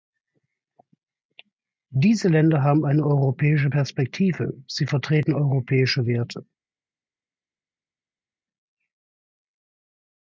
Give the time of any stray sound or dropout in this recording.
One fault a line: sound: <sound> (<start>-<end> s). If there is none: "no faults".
no faults